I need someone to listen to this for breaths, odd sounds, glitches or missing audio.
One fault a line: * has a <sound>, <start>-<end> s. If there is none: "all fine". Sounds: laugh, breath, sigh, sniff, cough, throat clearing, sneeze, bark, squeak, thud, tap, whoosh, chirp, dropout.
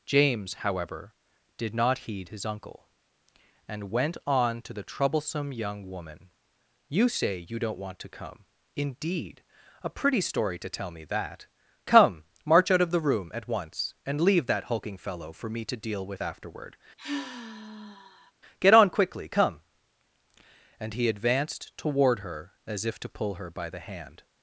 * has a sigh, 17.0-18.3 s